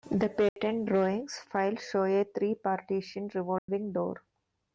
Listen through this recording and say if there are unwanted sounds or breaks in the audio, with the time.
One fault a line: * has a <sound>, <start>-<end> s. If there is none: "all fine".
* has a dropout, 0.5-0.6 s
* has a dropout, 3.6-3.7 s